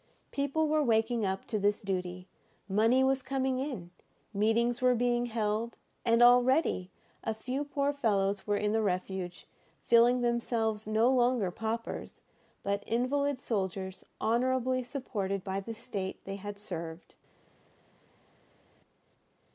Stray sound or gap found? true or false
false